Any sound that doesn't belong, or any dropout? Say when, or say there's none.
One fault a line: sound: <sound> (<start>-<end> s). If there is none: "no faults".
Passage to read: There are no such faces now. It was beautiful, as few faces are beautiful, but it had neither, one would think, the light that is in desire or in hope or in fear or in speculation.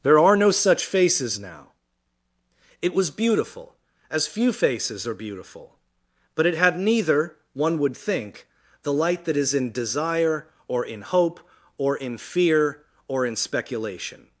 no faults